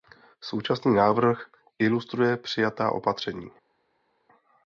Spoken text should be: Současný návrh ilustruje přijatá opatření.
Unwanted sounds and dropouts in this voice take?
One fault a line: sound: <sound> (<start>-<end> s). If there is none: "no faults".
no faults